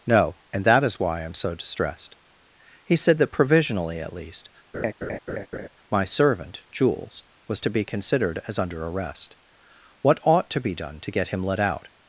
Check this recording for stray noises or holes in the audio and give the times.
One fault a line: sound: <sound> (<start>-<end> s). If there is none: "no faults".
sound: laugh (4.7-5.7 s)